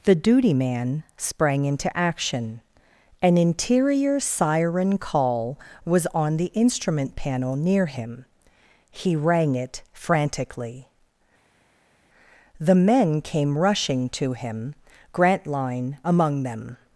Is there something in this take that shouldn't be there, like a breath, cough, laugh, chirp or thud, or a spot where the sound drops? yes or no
no